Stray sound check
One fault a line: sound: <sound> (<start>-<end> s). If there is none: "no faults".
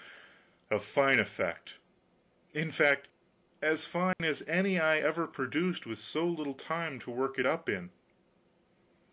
sound: dropout (4.1-4.2 s)